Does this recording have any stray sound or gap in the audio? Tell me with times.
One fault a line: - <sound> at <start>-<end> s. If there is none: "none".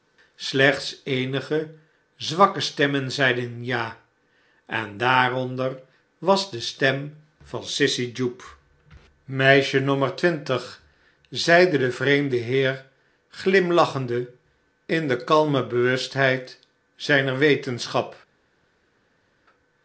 none